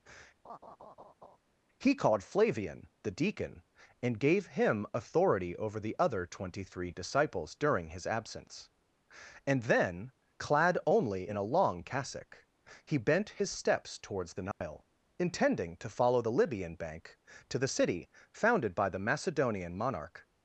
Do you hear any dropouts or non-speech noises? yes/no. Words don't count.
yes